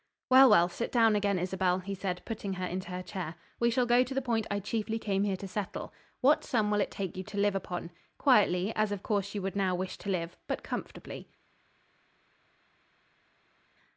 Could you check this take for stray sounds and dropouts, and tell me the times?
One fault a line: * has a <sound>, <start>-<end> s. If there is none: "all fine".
all fine